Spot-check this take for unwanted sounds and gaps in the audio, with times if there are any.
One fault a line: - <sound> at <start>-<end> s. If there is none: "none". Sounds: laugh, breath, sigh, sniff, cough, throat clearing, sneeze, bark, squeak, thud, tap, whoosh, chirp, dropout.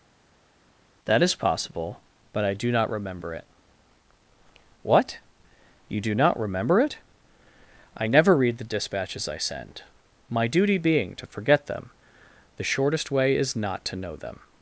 none